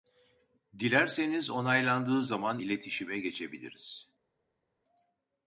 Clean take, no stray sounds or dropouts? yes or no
yes